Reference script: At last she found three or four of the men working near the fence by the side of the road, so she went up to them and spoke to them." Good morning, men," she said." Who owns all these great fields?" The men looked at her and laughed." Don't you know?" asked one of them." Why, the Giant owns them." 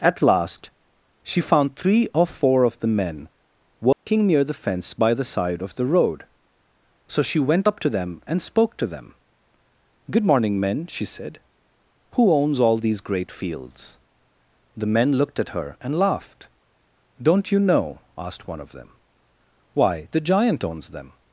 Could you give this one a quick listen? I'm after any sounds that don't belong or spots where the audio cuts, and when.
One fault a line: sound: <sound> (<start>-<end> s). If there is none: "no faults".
sound: dropout (3.9-4.1 s)